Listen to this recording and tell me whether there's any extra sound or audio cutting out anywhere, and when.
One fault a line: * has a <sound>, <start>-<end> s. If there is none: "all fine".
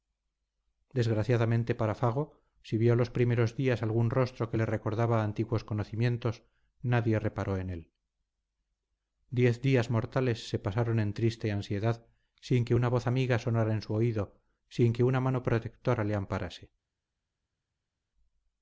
all fine